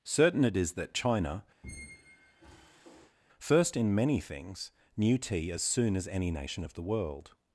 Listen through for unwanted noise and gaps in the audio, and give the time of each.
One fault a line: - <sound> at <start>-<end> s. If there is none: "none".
- squeak at 1.6-3.2 s